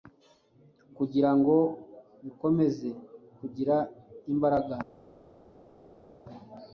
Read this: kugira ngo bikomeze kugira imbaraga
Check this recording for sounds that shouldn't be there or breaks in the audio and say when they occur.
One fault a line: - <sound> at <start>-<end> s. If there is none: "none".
none